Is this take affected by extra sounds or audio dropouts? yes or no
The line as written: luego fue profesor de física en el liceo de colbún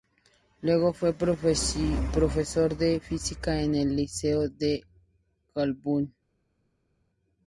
no